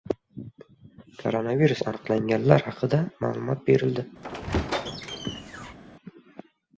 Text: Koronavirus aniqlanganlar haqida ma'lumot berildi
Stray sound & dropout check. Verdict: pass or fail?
fail